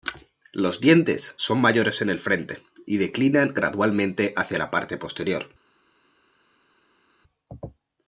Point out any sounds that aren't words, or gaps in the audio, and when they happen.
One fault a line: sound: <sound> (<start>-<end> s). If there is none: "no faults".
no faults